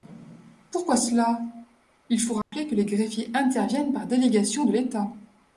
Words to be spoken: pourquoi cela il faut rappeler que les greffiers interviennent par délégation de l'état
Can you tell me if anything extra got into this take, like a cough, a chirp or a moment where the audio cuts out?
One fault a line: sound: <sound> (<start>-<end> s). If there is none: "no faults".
sound: dropout (2.4-2.5 s)